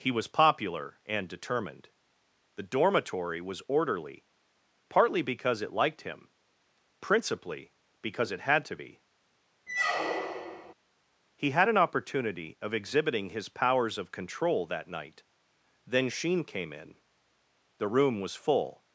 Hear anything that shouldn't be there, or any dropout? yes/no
yes